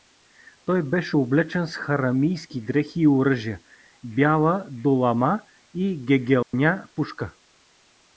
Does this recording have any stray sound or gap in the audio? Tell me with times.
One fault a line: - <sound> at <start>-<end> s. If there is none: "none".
- dropout at 6.4-6.5 s